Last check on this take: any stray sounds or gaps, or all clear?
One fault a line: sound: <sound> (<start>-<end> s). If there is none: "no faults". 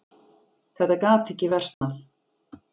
sound: dropout (1.7-1.8 s)